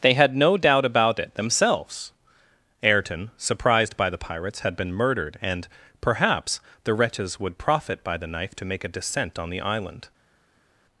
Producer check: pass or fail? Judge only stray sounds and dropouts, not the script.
pass